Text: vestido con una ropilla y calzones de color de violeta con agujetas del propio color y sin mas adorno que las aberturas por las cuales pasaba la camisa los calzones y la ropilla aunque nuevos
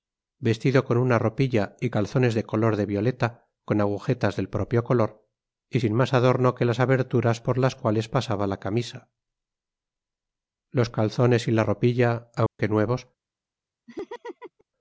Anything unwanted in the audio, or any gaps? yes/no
yes